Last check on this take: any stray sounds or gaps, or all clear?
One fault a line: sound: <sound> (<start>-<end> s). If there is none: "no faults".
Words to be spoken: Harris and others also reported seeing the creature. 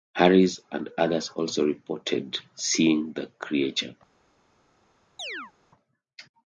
sound: chirp (5.2-5.5 s)